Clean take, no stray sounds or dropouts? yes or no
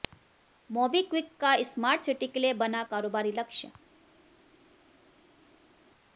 yes